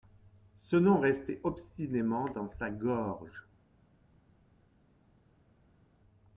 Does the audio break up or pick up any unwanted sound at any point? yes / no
no